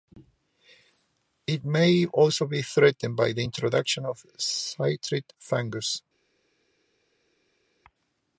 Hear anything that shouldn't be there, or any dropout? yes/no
no